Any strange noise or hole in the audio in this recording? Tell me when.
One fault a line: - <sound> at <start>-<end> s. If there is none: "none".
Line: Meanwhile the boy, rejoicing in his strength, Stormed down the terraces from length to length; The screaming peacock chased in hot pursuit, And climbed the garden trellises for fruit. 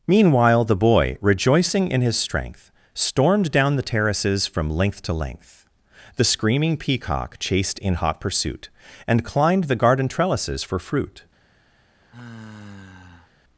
- sigh at 12.0-13.3 s